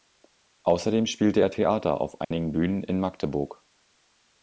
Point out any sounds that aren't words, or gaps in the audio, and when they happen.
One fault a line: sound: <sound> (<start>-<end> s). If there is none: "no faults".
sound: dropout (2.2-2.3 s)